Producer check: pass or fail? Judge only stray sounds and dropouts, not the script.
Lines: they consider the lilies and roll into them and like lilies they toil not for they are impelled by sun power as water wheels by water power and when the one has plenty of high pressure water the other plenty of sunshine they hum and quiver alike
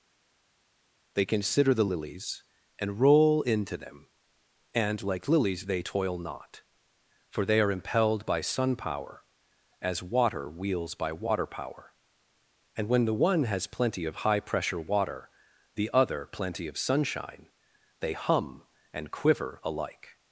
pass